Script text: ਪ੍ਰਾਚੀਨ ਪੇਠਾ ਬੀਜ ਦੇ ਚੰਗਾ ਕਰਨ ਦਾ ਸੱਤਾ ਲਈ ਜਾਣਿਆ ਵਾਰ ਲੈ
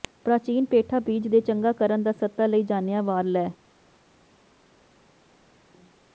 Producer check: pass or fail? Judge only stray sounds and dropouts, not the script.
pass